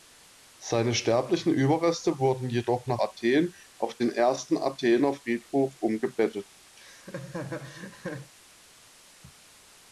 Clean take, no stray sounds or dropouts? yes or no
no